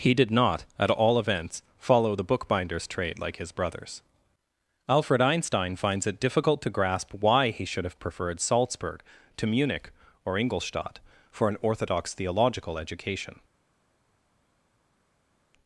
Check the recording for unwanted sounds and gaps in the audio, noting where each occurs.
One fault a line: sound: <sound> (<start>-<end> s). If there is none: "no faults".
no faults